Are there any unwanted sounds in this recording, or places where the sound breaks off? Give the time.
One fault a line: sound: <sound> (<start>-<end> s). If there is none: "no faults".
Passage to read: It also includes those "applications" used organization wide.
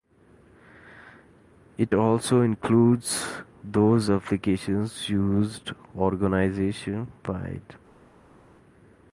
no faults